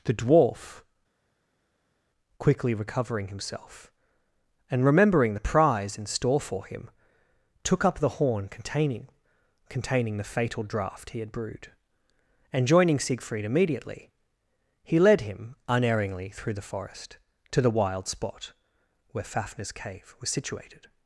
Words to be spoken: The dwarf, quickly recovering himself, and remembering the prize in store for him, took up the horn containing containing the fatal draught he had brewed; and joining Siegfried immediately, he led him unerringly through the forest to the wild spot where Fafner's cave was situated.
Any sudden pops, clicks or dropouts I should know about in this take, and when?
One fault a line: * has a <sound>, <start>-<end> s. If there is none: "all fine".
all fine